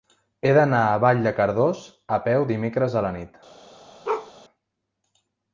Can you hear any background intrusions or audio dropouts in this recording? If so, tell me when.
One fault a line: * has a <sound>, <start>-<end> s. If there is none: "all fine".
* has a bark, 4.0-4.3 s